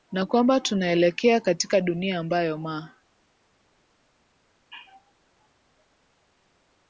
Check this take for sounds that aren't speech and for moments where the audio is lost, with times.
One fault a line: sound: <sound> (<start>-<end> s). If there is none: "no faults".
no faults